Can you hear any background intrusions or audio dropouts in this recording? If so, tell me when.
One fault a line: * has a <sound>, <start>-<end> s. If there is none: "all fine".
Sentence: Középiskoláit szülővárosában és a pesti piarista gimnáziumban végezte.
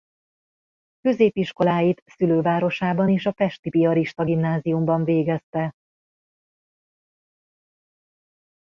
all fine